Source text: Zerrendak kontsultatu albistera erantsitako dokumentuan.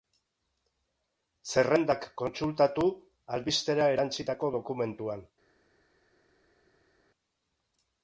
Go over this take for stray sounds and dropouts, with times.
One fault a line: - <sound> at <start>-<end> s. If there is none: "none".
none